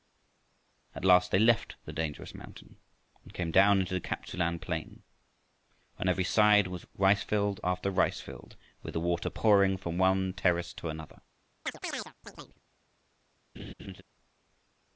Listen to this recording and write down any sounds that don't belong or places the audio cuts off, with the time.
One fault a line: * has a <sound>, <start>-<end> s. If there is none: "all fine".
* has a chirp, 11.7-12.6 s
* has a laugh, 13.5-14.0 s